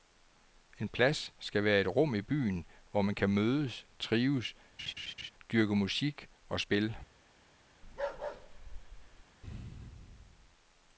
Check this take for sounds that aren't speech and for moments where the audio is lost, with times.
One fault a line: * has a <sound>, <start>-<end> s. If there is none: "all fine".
* has a laugh, 4.8-5.3 s
* has a bark, 7.8-9.2 s